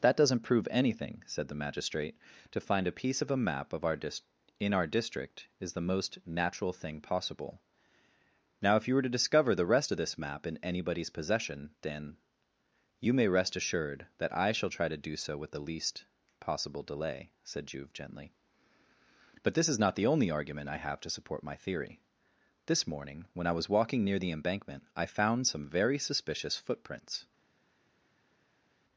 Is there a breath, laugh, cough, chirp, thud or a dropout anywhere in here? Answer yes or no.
no